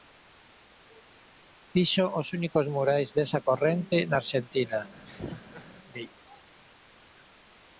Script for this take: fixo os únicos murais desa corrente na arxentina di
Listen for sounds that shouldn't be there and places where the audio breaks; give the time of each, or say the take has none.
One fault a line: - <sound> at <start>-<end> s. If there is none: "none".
- laugh at 5.1-5.7 s